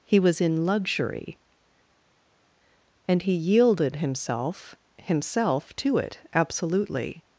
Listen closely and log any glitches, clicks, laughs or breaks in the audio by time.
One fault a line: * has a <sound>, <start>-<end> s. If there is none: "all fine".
all fine